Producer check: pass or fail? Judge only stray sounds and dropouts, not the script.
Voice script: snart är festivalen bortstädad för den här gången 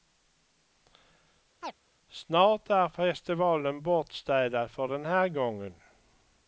fail